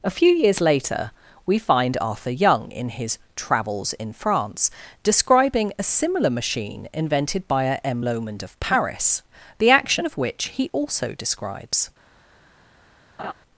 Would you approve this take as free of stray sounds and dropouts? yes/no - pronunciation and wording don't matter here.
no